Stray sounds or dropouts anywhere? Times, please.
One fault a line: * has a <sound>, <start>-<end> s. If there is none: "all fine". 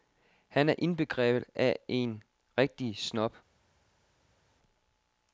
all fine